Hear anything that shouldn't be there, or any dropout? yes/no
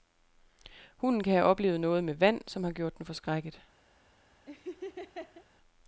yes